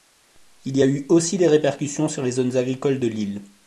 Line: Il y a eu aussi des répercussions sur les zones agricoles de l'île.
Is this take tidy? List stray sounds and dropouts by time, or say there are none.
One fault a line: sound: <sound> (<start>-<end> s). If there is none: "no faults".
no faults